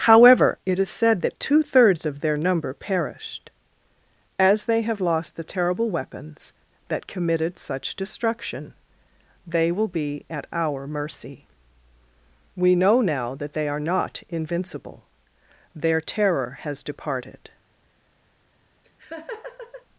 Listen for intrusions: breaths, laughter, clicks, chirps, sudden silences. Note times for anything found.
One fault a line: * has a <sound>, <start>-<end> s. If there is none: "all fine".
* has a laugh, 18.8-19.9 s